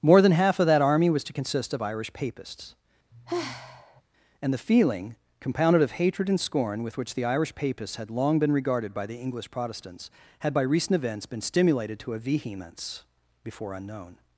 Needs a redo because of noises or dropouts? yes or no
yes